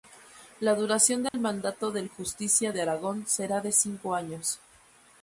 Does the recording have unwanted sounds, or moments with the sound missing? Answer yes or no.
yes